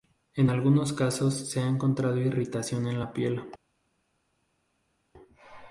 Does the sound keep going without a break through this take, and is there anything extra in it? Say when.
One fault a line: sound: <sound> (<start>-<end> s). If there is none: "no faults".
no faults